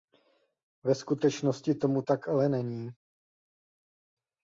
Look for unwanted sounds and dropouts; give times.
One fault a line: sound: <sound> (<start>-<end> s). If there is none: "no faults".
no faults